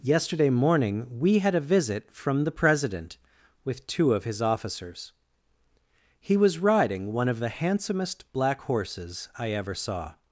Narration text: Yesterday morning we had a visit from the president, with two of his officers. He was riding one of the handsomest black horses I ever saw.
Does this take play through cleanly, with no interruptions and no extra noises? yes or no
yes